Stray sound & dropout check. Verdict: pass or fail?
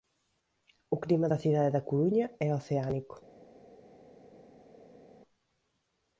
pass